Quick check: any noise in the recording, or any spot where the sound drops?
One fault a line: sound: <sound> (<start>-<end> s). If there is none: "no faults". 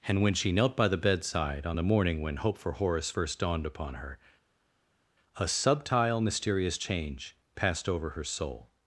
no faults